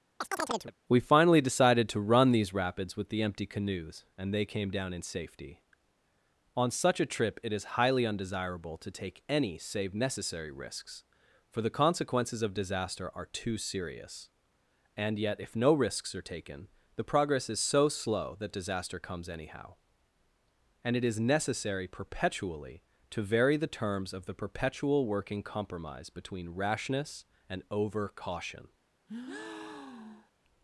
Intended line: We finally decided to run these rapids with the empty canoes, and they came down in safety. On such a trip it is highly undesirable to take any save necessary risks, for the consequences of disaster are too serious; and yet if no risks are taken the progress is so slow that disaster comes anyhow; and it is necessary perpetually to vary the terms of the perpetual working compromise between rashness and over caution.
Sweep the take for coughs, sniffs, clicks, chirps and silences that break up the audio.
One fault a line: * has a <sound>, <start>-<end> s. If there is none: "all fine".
* has a chirp, 0.2-0.8 s
* has a breath, 29.1-30.3 s